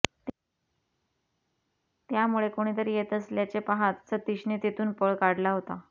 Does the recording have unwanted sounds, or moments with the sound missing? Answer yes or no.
no